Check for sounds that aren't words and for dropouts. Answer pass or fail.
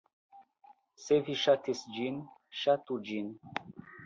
pass